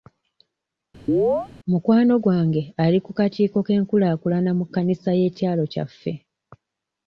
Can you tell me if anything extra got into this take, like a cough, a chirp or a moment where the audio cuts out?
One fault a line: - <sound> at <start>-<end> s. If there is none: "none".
- chirp at 1.1-1.5 s